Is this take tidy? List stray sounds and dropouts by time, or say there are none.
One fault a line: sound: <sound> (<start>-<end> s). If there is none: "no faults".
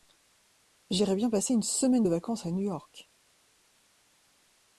no faults